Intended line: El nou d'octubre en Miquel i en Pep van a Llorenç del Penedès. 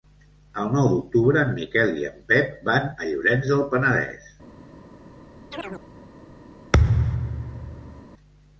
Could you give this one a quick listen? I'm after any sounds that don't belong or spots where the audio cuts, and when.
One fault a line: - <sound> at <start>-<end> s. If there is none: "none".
- chirp at 5.5-5.8 s
- thud at 6.7-8.0 s